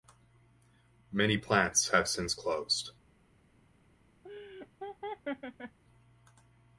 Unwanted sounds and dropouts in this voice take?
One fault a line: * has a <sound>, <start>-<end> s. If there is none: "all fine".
* has a laugh, 4.2-5.8 s